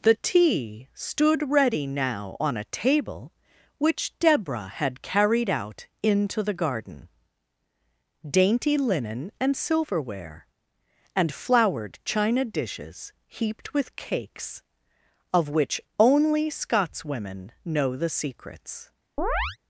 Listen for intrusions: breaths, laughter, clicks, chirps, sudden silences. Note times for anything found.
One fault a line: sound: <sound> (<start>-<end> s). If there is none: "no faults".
sound: chirp (19.2-19.6 s)